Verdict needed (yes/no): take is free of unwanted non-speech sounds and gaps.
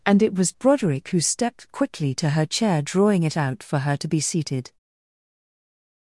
yes